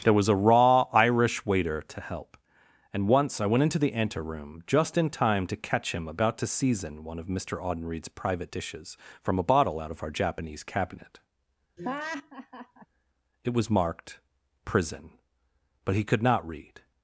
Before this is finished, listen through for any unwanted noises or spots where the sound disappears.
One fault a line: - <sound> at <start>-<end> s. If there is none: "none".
- laugh at 11.8-12.9 s